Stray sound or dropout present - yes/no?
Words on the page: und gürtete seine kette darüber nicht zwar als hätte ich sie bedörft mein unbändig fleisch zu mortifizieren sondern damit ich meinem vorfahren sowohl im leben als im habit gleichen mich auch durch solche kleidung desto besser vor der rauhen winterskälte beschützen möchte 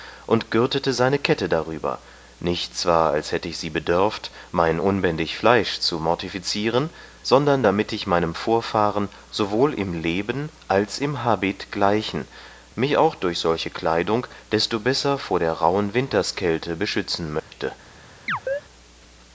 yes